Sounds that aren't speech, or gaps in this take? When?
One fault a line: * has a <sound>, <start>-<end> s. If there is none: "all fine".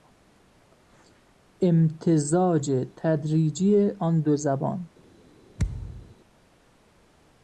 * has a thud, 5.6-6.2 s